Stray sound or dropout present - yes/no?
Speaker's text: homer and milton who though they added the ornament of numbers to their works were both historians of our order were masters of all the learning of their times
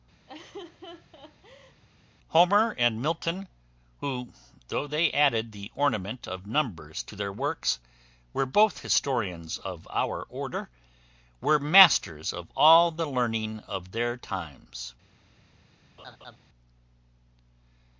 yes